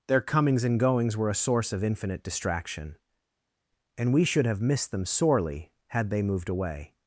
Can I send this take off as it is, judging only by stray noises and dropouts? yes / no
yes